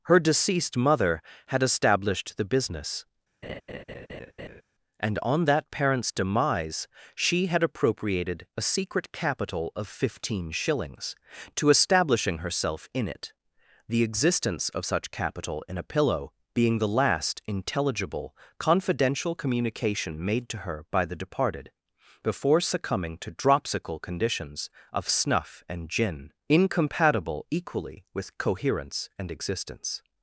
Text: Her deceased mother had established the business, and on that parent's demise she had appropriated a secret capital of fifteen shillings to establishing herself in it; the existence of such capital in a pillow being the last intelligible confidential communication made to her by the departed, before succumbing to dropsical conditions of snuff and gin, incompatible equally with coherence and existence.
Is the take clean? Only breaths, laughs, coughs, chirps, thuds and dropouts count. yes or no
no